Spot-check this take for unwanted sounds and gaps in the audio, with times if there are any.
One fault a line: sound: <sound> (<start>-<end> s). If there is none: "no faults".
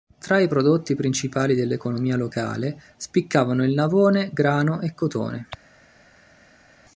no faults